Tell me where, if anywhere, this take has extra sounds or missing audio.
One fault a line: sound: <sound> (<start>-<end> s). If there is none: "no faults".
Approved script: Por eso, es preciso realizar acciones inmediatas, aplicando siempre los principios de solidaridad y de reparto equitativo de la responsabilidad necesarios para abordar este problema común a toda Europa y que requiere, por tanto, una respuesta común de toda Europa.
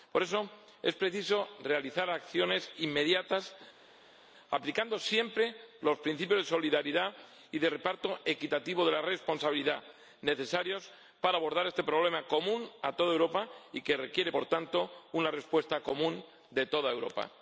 no faults